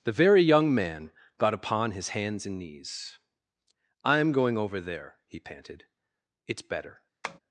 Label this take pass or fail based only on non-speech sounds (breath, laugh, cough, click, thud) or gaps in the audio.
fail